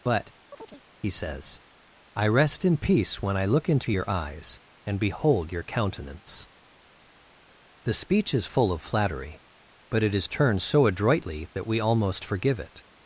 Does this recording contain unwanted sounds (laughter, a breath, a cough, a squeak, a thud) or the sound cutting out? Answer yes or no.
yes